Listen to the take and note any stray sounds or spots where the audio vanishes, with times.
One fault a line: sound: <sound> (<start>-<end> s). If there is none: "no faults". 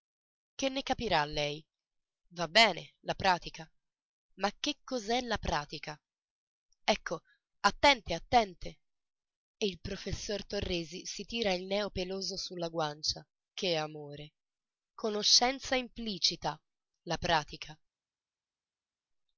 no faults